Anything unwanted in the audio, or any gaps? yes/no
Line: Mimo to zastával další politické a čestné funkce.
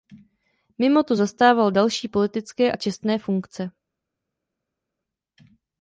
no